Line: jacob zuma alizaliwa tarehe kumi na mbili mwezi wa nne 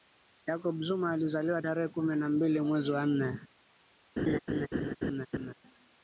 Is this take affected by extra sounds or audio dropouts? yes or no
yes